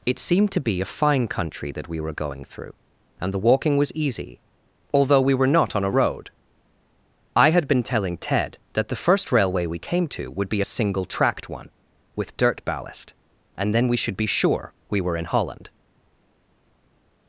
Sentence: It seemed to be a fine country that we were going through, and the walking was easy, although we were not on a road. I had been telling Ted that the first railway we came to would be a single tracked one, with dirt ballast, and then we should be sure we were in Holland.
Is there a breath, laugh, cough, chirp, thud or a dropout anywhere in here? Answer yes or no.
no